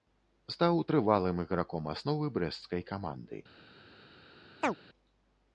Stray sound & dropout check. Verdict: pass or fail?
fail